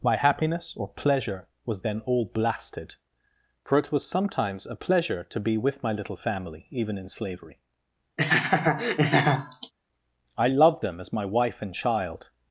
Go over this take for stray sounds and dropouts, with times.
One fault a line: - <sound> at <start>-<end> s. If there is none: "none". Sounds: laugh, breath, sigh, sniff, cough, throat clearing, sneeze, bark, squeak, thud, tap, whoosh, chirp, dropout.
- laugh at 8.2-9.7 s